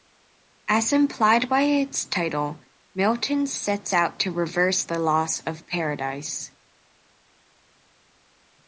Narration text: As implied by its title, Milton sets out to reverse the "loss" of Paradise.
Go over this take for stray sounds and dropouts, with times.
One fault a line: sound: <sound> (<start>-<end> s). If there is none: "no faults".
no faults